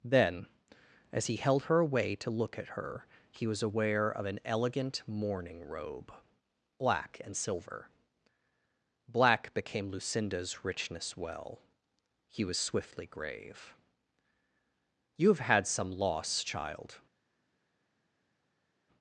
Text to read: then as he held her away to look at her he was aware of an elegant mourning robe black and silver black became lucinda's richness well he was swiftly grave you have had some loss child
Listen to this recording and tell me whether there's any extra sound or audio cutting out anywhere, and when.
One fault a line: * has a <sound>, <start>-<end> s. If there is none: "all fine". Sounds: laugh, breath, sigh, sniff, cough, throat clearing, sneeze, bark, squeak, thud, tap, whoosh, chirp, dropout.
all fine